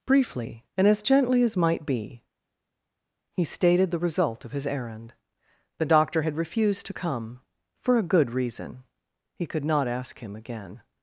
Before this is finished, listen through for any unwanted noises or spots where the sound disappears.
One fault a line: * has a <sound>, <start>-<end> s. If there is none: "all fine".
all fine